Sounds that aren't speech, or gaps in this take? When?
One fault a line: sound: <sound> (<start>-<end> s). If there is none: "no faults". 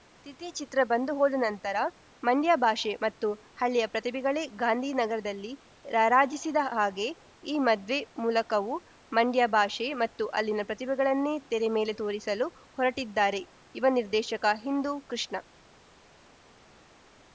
no faults